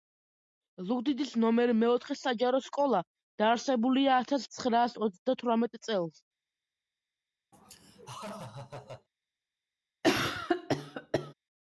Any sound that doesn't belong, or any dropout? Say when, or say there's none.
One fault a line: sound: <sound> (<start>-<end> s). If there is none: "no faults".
sound: laugh (7.5-9.1 s)
sound: cough (10.0-11.3 s)